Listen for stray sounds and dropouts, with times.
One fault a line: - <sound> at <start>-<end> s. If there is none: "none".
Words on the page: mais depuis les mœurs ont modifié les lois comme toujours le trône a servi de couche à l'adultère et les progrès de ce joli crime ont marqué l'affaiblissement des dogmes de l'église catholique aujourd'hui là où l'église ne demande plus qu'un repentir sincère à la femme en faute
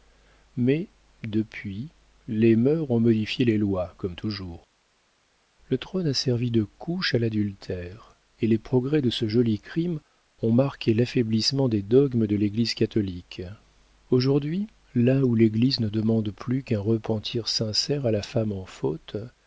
none